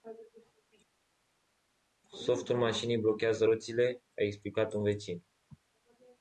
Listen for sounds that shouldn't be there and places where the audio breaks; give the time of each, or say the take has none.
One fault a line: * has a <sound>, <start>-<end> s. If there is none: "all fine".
all fine